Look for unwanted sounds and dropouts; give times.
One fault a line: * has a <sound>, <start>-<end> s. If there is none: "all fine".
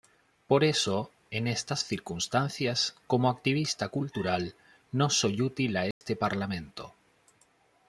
* has a dropout, 5.9-6.0 s